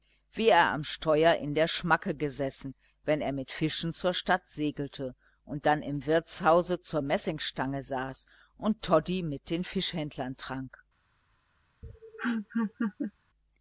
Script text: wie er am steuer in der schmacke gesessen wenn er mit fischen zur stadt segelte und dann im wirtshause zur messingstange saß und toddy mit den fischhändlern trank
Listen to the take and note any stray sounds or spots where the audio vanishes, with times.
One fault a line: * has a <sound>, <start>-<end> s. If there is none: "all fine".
* has a laugh, 11.8-13.1 s